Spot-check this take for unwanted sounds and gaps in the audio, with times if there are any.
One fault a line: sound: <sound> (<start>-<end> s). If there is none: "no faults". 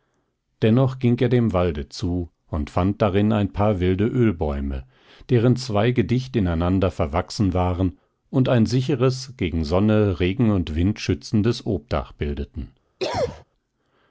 sound: cough (13.0-13.4 s)